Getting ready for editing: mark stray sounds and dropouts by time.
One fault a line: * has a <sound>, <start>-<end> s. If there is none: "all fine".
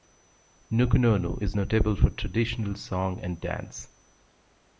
all fine